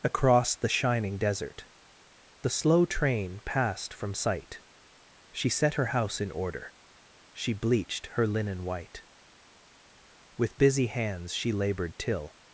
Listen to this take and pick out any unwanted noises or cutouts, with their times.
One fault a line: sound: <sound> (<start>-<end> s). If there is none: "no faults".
no faults